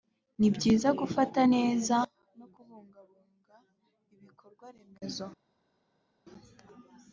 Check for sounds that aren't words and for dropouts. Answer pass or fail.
pass